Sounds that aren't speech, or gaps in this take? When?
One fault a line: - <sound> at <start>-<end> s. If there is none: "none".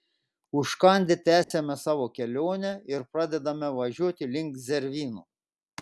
- dropout at 1.4-1.5 s